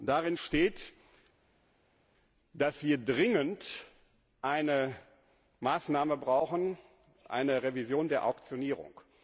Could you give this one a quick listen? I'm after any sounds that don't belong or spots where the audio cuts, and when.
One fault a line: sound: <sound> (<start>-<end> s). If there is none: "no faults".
no faults